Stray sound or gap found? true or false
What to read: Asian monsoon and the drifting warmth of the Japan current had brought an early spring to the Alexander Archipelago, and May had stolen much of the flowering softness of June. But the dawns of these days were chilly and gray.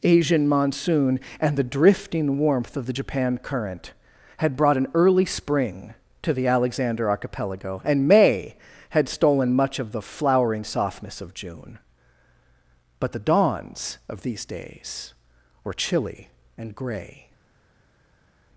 false